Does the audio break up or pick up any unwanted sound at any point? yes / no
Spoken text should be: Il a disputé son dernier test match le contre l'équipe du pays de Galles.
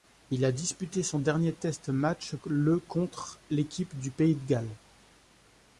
no